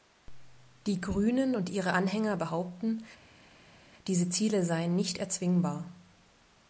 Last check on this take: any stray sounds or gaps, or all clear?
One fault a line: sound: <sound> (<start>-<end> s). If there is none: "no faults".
no faults